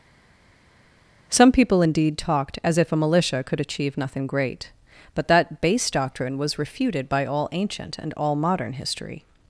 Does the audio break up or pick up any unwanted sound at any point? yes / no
no